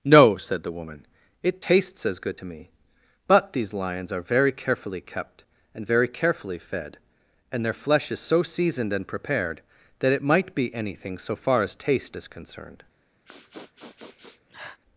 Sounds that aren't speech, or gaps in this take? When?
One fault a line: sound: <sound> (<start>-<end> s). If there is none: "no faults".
sound: sniff (13.2-14.8 s)